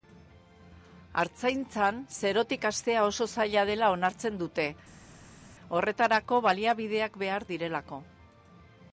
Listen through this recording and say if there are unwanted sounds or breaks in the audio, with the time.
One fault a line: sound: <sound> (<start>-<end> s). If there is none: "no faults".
no faults